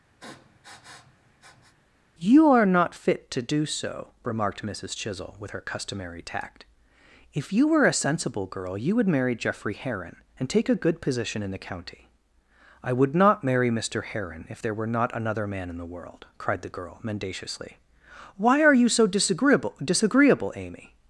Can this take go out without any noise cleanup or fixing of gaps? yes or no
no